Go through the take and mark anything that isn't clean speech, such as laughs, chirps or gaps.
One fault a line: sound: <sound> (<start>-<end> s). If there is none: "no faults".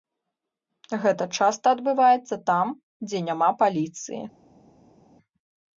no faults